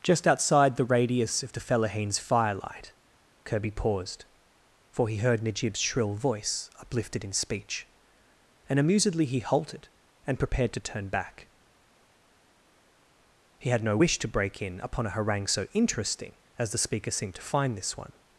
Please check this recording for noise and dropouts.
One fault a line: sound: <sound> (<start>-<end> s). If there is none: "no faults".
no faults